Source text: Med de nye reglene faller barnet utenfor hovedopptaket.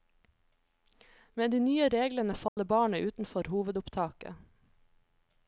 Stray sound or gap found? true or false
true